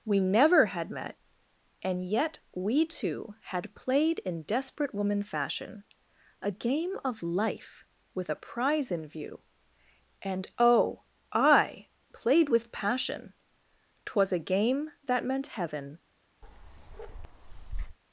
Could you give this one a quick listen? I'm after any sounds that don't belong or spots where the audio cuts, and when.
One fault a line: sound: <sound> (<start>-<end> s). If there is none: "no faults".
sound: bark (16.4-18.0 s)